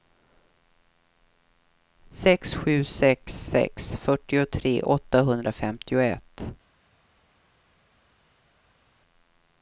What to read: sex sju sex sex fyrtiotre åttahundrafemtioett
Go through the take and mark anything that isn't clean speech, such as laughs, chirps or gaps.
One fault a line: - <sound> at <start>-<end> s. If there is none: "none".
none